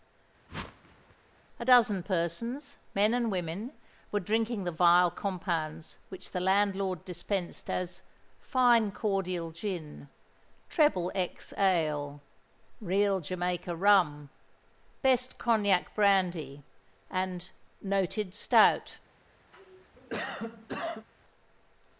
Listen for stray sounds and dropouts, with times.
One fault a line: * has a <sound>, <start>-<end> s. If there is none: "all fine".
* has a whoosh, 0.5-1.2 s
* has a cough, 19.5-21.1 s